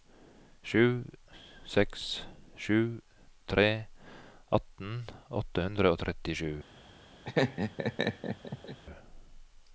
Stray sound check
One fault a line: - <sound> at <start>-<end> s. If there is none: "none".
- laugh at 7.2-8.8 s